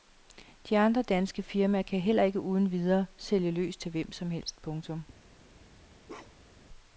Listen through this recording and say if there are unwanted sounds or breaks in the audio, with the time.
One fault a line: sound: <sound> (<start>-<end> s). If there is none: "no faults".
sound: bark (6.1-6.7 s)